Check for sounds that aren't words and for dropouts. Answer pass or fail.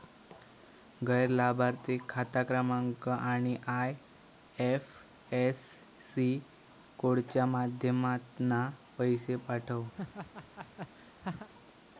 fail